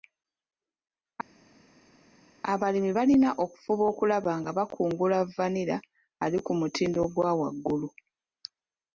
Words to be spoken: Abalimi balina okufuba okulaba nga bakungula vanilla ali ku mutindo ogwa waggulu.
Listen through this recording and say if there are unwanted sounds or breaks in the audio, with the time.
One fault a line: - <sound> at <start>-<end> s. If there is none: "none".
none